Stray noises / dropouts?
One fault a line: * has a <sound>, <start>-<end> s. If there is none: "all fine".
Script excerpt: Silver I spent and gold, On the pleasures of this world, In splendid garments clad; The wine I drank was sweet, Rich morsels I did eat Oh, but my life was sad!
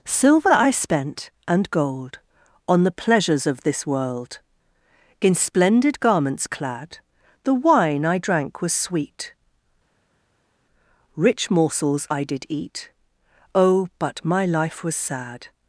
all fine